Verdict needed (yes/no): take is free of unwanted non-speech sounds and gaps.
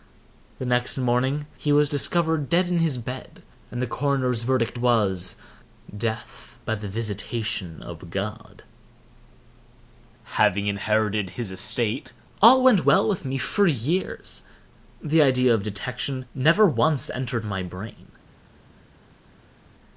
yes